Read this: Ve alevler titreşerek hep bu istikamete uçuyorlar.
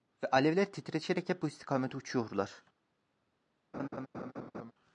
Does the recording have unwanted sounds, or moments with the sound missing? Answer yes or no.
yes